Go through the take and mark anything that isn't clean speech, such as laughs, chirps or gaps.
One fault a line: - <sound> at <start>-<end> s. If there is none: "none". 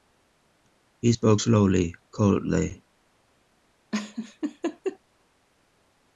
- laugh at 3.9-5.0 s